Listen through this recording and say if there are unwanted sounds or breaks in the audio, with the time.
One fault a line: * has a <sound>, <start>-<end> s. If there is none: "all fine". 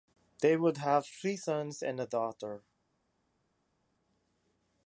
all fine